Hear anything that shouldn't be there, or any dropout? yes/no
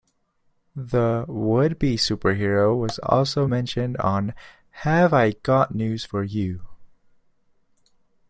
no